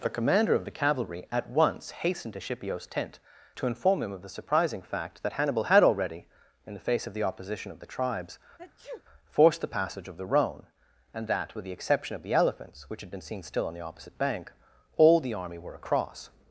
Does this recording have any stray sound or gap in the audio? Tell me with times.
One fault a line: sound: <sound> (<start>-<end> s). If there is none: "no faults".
sound: sneeze (8.6-9.0 s)